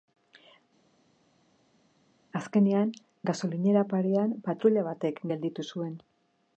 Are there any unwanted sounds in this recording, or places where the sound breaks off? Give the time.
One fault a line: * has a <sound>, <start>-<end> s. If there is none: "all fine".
all fine